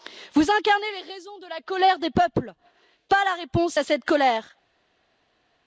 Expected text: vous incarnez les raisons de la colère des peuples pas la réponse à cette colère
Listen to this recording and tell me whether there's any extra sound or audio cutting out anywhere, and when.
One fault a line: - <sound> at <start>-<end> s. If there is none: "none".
none